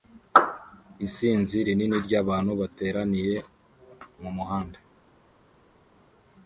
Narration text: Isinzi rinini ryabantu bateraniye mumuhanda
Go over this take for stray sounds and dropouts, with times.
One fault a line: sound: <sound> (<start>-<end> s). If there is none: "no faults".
no faults